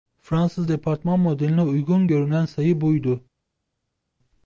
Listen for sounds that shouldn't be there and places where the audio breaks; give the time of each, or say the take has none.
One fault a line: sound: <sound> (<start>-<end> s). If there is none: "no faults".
no faults